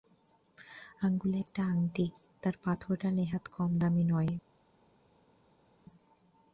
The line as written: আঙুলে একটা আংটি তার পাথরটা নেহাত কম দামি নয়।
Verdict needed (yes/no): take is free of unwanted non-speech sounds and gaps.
yes